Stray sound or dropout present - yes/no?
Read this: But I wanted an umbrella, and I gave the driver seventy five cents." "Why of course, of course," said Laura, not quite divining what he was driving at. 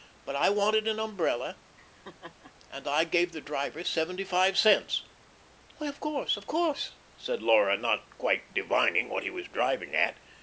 yes